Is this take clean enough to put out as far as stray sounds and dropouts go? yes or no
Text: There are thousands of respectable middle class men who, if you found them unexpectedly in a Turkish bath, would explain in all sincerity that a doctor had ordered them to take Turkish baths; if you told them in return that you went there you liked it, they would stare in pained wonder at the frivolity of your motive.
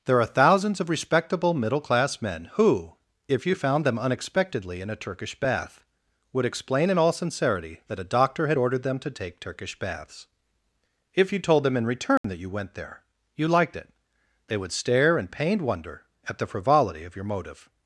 no